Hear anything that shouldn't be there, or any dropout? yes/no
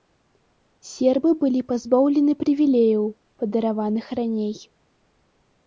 no